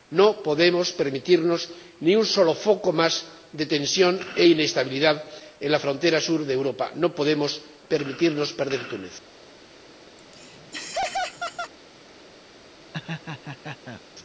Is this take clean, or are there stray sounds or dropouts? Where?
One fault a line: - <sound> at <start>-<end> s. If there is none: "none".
- laugh at 10.2-11.7 s
- laugh at 12.9-14.0 s